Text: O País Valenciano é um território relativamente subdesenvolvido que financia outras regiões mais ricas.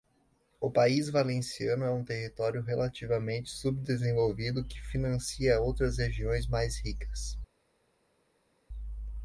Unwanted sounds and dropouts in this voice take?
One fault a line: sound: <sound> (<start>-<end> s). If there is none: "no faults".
no faults